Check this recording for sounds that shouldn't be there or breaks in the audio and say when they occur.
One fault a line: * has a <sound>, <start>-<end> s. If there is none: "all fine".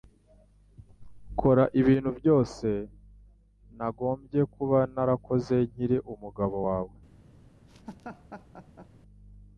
* has a laugh, 7.7-8.9 s